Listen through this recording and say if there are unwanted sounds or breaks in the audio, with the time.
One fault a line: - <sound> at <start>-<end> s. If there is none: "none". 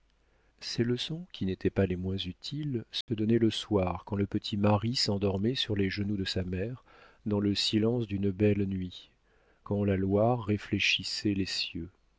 - dropout at 3.0-3.1 s